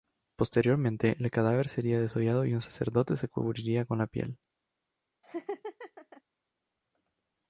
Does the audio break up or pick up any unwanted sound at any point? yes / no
yes